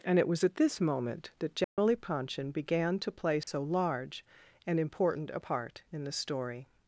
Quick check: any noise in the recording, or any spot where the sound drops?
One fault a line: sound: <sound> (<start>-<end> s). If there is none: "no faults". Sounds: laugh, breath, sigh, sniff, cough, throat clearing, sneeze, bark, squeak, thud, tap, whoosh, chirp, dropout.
sound: dropout (1.6-1.8 s)
sound: dropout (3.4-3.5 s)